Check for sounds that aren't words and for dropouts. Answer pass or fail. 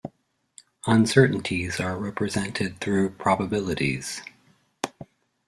pass